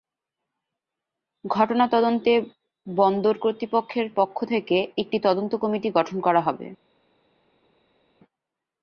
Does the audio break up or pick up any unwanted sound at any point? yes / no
no